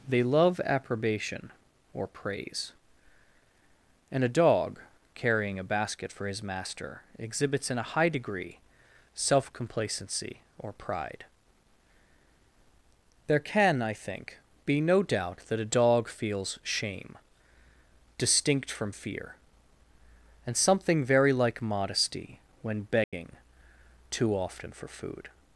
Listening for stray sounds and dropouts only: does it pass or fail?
fail